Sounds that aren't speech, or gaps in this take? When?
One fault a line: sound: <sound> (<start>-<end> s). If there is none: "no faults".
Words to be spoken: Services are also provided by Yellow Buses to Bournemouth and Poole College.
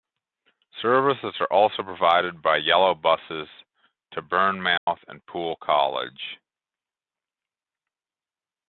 sound: dropout (4.8-4.9 s)